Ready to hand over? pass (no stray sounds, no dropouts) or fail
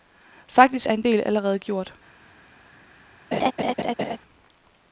fail